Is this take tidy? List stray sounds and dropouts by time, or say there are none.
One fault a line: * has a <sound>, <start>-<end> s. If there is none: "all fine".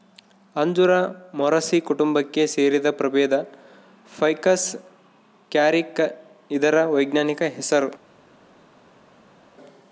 all fine